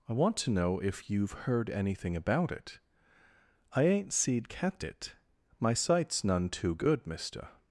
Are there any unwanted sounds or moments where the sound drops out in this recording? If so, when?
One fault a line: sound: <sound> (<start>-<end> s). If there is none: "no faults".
no faults